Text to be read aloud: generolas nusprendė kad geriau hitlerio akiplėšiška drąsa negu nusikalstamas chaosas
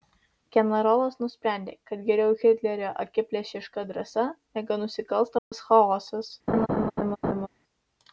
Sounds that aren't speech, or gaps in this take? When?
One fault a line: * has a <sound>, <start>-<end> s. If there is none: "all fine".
* has a dropout, 5.4-5.5 s
* has a laugh, 6.5-7.5 s